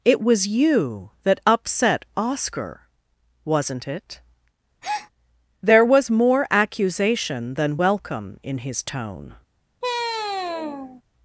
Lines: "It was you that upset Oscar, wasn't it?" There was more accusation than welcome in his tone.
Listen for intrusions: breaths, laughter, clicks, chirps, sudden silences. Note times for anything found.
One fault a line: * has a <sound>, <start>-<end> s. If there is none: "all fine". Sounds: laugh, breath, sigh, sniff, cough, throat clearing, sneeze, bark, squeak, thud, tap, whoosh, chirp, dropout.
* has a breath, 4.8-5.1 s
* has a sigh, 9.8-11.0 s